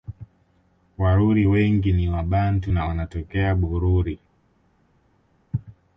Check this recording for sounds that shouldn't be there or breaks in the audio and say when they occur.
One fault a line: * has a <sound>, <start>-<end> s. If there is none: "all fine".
all fine